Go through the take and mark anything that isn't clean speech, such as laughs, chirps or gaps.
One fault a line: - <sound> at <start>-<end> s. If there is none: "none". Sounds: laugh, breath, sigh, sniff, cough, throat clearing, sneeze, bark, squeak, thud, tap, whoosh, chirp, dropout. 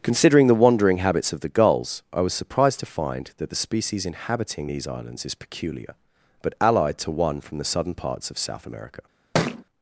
- thud at 9.3-9.6 s